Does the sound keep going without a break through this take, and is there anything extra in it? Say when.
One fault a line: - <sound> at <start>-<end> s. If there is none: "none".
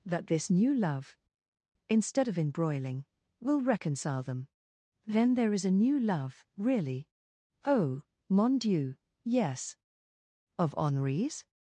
none